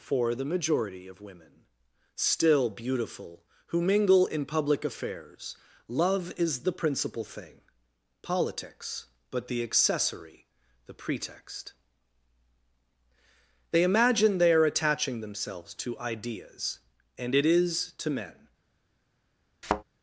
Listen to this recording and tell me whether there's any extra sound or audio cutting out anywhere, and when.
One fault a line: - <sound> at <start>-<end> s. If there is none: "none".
- thud at 19.6-19.8 s